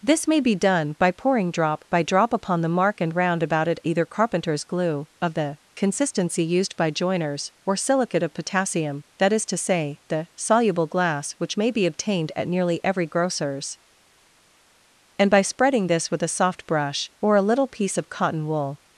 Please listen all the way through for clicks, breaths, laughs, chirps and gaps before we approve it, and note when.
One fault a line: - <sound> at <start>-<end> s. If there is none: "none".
none